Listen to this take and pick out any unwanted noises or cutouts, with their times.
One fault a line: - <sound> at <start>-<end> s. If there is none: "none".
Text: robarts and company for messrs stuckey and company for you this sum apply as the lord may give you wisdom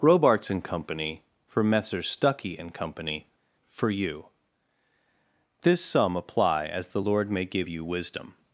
none